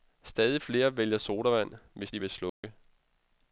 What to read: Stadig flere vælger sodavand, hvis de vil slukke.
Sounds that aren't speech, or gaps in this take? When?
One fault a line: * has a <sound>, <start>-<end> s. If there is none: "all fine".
* has a dropout, 2.5-2.6 s